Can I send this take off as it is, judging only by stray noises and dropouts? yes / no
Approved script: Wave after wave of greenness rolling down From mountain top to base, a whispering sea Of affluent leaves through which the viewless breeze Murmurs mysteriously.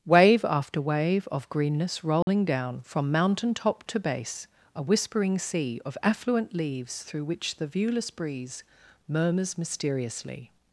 no